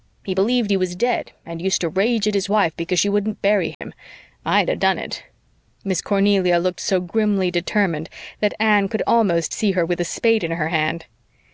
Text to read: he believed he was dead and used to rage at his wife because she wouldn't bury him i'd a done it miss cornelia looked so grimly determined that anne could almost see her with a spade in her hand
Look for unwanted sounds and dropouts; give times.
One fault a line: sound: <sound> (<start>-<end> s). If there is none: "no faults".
sound: dropout (3.7-3.8 s)